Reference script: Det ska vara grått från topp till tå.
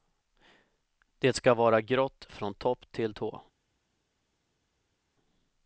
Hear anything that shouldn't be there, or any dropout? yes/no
no